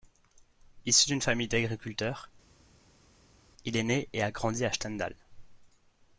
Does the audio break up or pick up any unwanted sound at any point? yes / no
no